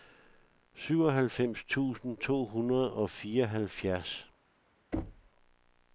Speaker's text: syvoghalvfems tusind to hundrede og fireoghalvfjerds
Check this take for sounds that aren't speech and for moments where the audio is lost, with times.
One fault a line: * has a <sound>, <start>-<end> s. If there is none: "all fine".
* has a thud, 4.9-5.3 s